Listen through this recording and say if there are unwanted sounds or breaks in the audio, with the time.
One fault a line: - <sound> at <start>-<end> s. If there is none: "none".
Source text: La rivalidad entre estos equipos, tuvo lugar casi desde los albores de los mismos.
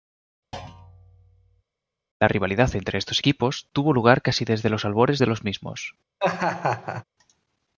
- thud at 0.5-1.6 s
- laugh at 6.2-7.0 s